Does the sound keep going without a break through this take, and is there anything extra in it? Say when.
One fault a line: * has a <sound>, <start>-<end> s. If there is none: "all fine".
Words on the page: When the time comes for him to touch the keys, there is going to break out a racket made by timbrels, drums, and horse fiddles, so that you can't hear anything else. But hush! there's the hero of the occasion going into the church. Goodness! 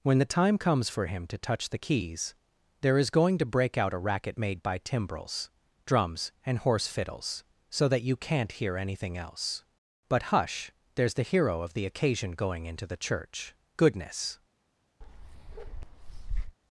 * has a bark, 15.0-16.6 s